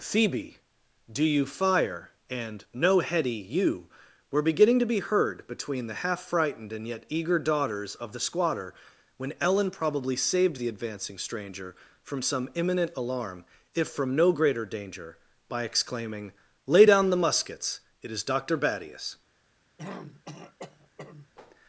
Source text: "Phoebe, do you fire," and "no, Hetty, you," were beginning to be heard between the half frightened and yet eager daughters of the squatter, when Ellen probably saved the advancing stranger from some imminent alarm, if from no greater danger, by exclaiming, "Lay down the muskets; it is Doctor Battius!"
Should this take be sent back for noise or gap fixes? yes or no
yes